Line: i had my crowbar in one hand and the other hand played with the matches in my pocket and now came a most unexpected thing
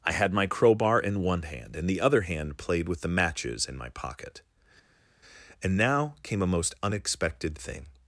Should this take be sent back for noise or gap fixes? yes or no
no